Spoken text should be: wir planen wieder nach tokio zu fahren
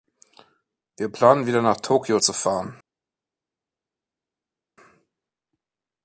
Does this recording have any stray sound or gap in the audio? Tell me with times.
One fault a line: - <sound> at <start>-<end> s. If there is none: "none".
none